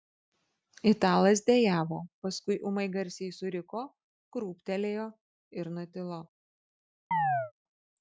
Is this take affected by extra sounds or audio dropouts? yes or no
yes